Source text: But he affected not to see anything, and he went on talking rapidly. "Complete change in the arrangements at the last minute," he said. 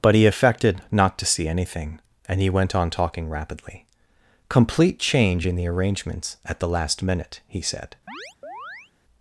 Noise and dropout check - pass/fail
fail